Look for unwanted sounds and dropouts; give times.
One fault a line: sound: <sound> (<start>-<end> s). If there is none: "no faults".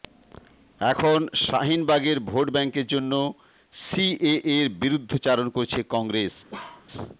sound: bark (6.5-6.9 s)